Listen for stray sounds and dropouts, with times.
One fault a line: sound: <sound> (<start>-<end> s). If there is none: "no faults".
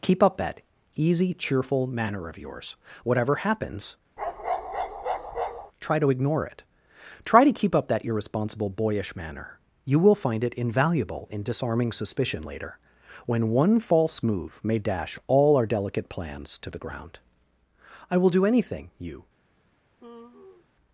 sound: bark (4.2-5.7 s)
sound: sigh (20.0-20.7 s)